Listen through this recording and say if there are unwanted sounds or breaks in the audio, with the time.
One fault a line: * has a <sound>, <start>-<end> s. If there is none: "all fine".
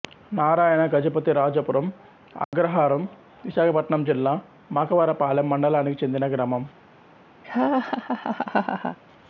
* has a dropout, 2.4-2.5 s
* has a laugh, 7.4-9.0 s